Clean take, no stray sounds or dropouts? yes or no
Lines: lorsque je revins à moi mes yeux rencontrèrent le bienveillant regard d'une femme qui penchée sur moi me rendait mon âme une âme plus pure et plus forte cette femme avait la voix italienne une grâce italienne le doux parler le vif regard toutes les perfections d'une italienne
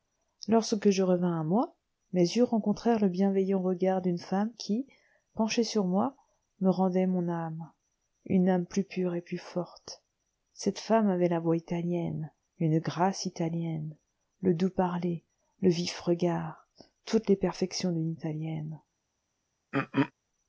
no